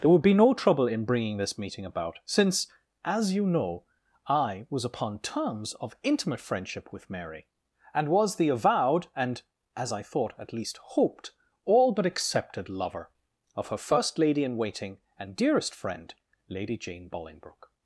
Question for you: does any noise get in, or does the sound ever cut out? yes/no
no